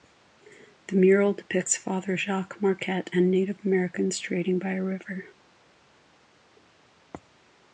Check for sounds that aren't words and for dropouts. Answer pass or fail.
pass